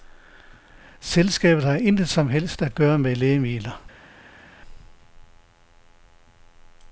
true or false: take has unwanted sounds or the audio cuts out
false